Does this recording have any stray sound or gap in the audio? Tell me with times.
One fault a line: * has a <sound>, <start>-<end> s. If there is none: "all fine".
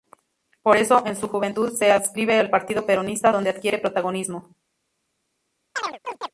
* has a chirp, 5.8-6.3 s